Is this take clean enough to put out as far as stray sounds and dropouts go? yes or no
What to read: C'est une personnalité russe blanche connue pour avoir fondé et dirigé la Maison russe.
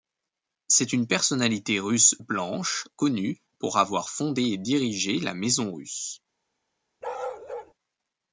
no